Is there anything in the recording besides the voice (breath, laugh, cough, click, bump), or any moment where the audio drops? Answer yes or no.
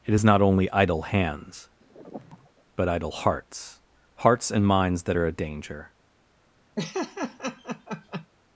yes